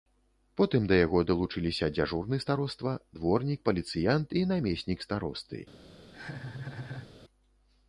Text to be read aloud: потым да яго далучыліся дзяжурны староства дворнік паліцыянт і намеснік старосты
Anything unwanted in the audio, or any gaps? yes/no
yes